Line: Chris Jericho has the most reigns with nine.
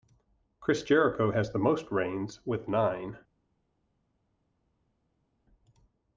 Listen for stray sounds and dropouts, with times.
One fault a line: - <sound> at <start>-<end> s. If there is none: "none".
none